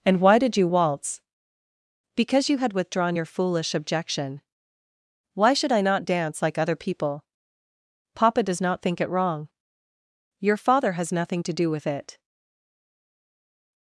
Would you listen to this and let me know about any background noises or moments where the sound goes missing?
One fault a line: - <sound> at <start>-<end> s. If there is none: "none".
none